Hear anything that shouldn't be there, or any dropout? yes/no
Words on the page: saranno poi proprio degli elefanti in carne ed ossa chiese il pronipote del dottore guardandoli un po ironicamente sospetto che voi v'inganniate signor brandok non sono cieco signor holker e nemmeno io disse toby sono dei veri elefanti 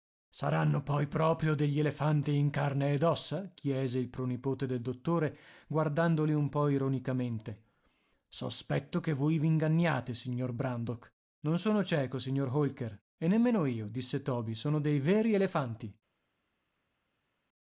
no